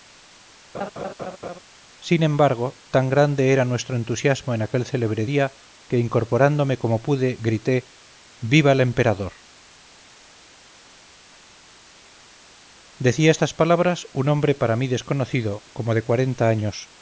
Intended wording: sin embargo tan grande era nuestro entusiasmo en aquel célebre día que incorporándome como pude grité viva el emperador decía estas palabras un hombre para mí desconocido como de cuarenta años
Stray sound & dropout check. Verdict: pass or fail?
fail